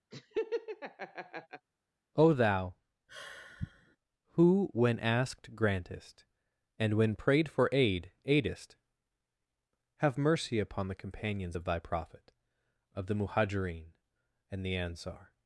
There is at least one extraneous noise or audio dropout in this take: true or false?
true